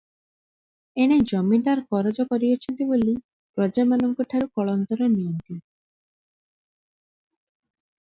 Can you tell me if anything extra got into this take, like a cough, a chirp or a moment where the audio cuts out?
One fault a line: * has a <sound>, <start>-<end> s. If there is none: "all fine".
all fine